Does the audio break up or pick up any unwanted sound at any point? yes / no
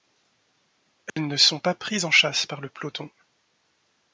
yes